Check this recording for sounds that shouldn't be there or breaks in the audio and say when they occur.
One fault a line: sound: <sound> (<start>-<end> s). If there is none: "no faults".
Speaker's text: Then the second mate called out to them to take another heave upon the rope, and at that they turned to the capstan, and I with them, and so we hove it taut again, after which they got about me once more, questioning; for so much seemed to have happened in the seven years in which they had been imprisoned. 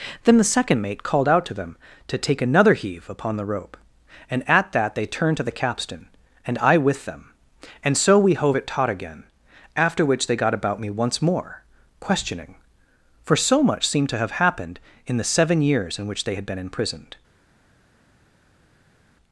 no faults